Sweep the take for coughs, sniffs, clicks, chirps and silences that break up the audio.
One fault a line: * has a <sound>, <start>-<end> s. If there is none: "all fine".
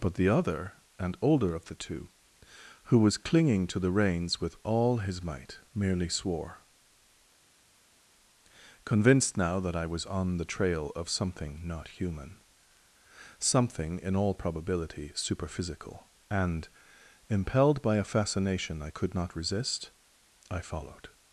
all fine